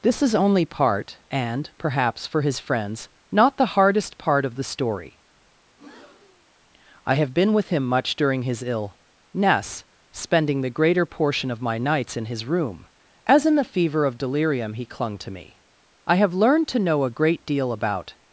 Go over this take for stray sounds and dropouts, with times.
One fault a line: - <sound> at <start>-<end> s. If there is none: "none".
- breath at 5.7-6.5 s